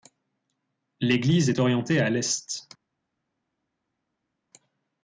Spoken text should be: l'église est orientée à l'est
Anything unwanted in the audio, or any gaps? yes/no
no